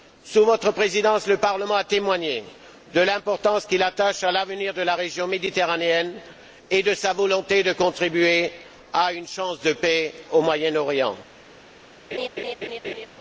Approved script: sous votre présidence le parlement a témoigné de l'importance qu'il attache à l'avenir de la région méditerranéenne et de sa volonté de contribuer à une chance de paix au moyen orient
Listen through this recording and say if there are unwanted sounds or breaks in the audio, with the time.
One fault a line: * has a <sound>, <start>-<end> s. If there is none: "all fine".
* has a laugh, 12.1-13.1 s